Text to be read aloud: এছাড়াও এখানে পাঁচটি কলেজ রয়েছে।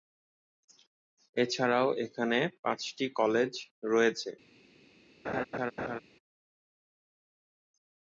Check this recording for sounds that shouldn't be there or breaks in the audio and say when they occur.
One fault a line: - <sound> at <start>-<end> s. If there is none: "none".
- laugh at 5.2-6.0 s